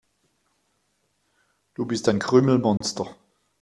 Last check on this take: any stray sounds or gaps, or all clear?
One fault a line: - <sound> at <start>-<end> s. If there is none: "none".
- dropout at 2.8-2.8 s